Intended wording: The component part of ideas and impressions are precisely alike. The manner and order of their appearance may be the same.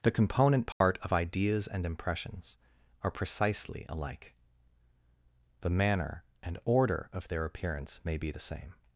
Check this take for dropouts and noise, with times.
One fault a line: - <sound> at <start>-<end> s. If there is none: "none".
- dropout at 0.7-0.8 s